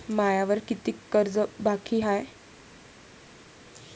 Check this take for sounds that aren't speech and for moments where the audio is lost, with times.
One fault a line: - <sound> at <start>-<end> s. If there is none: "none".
none